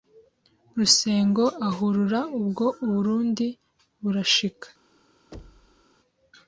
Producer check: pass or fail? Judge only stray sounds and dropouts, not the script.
fail